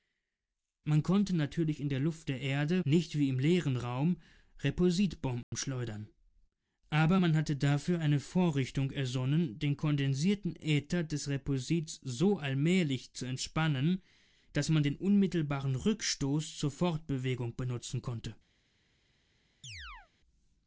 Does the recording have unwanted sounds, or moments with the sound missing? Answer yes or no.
yes